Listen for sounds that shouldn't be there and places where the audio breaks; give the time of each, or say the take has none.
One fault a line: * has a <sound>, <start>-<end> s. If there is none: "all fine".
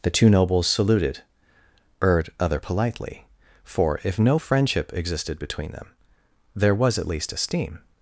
all fine